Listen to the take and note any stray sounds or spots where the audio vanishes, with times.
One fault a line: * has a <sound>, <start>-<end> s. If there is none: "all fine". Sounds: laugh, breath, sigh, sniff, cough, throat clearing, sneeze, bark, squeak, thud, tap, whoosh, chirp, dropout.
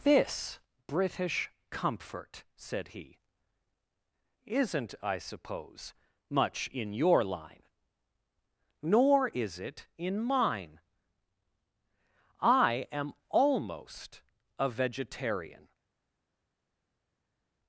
all fine